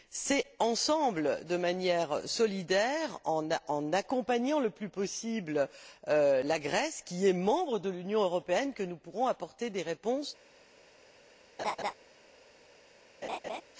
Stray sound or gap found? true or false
true